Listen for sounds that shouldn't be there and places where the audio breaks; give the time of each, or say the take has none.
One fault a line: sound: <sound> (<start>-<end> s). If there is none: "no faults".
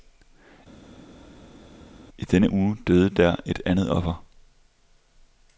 no faults